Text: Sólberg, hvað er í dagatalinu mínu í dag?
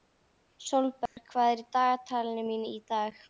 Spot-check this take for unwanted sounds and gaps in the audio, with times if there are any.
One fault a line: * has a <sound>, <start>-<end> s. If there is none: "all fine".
* has a dropout, 1.1-1.2 s